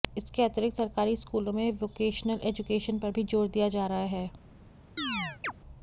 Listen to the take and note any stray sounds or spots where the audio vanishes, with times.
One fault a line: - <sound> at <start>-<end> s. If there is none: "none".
- chirp at 5.0-5.5 s